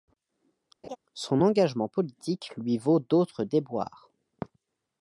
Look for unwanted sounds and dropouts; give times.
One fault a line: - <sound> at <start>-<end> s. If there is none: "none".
- laugh at 0.8-1.0 s